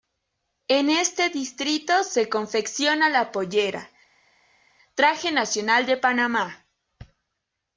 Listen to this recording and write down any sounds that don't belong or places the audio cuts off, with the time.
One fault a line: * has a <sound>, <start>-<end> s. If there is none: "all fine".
all fine